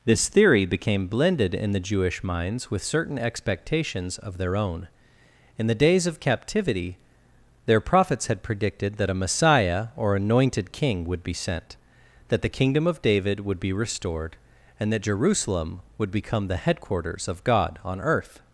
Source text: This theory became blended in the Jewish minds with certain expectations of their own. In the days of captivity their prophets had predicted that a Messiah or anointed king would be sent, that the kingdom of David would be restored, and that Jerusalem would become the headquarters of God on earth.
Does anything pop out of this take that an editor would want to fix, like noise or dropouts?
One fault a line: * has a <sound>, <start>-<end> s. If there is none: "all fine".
all fine